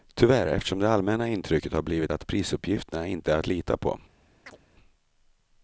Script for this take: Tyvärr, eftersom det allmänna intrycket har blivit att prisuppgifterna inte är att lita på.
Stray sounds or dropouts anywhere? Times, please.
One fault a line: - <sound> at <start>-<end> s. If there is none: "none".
- chirp at 4.5-4.6 s